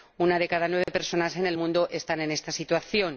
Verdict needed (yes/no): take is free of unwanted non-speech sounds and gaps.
no